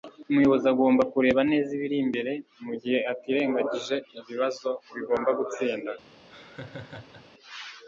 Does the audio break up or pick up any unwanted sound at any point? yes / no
yes